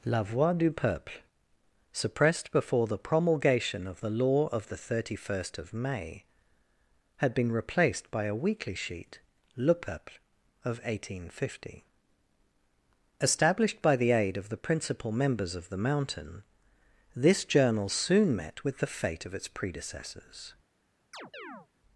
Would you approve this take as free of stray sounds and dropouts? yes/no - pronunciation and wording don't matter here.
no